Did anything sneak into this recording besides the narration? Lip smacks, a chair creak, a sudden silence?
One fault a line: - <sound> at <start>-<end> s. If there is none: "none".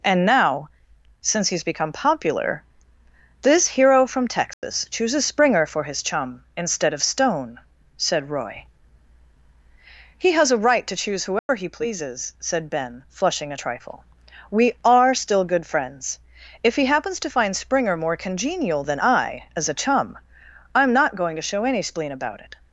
- dropout at 4.5-4.6 s
- dropout at 11.4-11.5 s